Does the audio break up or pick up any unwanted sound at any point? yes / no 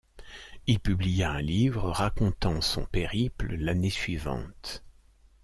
no